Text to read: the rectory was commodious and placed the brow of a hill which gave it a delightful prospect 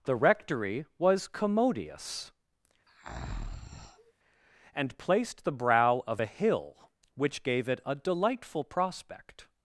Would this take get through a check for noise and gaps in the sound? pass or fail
fail